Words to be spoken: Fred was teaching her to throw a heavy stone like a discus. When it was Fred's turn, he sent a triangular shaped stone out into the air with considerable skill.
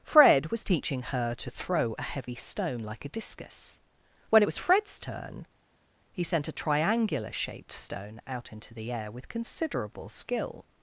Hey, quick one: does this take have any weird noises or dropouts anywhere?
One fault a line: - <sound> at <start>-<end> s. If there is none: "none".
none